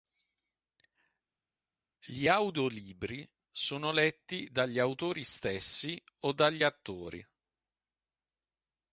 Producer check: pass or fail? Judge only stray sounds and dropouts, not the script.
pass